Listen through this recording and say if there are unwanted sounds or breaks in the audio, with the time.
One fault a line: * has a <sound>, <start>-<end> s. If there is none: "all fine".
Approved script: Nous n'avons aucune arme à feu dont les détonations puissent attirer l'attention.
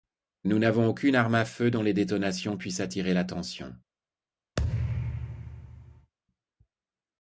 * has a thud, 4.6-6.1 s